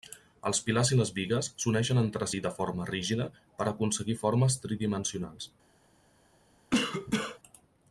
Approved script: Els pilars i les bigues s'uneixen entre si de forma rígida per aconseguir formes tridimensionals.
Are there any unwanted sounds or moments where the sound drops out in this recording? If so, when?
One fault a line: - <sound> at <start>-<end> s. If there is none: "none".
- cough at 6.7-7.4 s